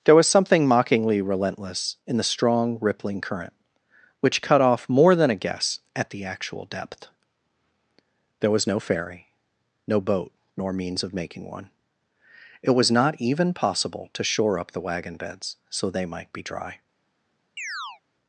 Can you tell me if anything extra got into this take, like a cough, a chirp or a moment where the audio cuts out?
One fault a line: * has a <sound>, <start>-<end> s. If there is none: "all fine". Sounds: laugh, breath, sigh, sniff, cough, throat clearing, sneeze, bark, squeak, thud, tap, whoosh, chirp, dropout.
* has a chirp, 17.6-18.0 s